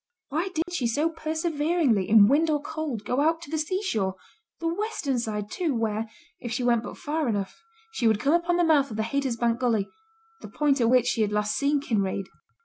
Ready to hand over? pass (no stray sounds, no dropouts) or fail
fail